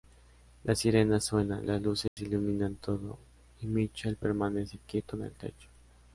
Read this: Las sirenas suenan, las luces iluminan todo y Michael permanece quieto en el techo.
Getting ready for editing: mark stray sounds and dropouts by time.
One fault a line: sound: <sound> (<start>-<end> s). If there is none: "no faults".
sound: dropout (2.1-2.2 s)